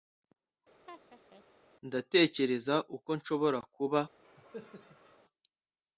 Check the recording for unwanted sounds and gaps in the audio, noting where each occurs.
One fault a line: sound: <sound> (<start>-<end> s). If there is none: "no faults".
sound: laugh (0.9-1.4 s)
sound: cough (4.2-5.2 s)